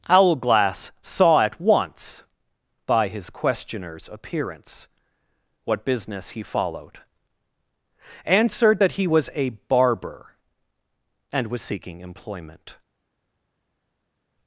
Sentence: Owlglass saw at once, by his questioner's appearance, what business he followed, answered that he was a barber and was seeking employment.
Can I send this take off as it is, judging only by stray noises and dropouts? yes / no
yes